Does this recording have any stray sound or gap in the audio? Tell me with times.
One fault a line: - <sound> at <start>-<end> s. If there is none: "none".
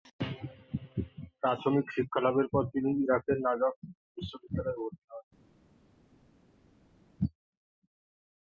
none